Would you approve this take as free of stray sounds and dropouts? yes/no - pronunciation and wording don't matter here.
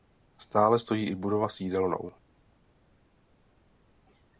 yes